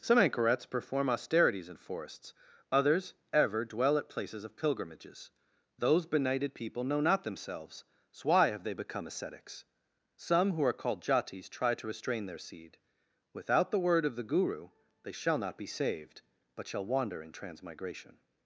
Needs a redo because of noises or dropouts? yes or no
no